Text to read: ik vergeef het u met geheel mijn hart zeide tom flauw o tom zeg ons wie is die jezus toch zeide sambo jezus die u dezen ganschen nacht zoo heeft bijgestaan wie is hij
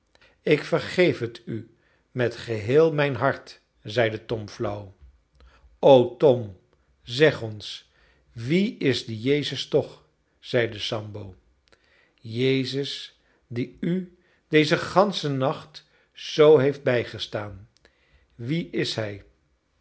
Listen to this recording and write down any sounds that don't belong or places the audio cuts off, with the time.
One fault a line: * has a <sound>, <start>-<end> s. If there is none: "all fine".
all fine